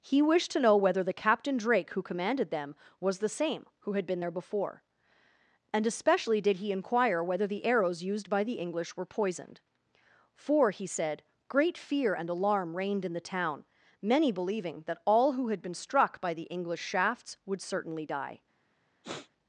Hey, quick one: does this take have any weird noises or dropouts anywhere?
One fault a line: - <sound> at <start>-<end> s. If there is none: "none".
- sniff at 19.0-19.3 s